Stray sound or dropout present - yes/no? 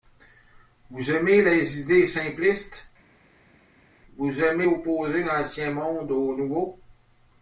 no